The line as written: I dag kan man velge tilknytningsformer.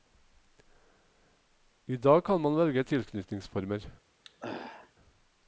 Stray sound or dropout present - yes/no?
yes